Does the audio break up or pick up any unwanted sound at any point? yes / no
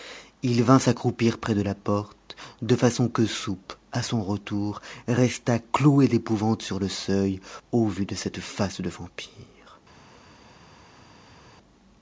no